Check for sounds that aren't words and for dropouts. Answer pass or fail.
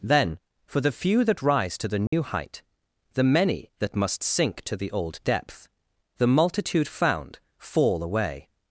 fail